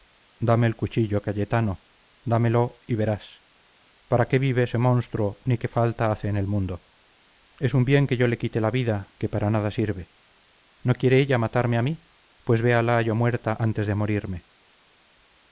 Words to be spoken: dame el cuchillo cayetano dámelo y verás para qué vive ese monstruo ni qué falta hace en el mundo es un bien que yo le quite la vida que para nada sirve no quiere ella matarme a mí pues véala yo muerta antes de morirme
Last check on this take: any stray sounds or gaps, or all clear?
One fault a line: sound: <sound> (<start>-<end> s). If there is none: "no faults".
no faults